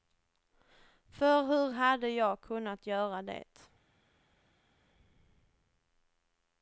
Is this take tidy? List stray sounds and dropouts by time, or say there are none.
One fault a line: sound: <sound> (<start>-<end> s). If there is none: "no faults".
no faults